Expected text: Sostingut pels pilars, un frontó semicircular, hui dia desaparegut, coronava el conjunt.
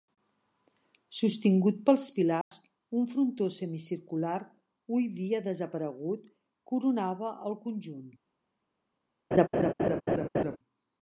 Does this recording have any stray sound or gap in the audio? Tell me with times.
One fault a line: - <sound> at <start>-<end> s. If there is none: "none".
- dropout at 2.4-2.5 s
- laugh at 9.3-10.6 s